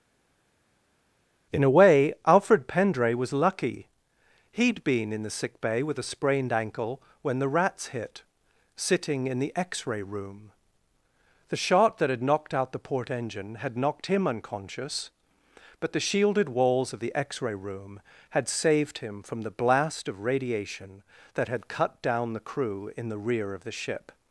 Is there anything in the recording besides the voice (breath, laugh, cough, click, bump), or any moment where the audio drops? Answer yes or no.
no